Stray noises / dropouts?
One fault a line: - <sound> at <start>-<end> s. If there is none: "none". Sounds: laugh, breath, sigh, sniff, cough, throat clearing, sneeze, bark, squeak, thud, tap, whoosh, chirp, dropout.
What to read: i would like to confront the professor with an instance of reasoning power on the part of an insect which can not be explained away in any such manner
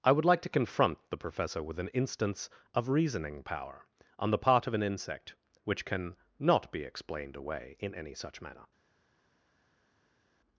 none